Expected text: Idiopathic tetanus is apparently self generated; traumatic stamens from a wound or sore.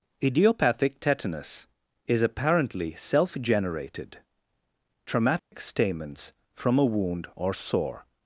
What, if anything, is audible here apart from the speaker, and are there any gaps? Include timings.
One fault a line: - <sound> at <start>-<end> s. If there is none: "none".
- dropout at 5.4-5.5 s